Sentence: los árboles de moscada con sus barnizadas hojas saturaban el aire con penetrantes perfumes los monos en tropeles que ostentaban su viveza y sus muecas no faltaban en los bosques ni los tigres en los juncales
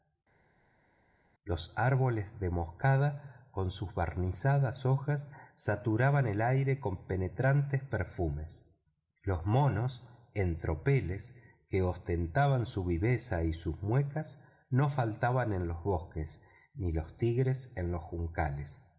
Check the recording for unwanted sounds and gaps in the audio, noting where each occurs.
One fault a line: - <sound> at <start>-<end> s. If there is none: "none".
none